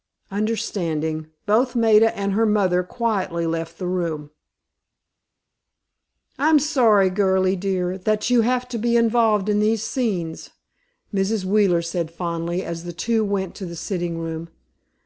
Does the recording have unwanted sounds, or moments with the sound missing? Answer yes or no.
no